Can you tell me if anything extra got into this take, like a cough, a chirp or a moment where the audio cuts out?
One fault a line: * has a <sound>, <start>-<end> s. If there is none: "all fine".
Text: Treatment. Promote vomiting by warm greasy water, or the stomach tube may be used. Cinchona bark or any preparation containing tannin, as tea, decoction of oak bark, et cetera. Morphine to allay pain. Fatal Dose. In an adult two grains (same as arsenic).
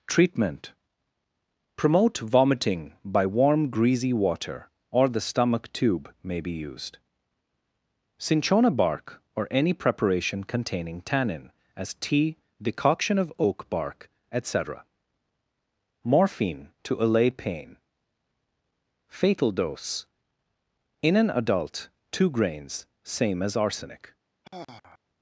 * has a sigh, 24.4-25.0 s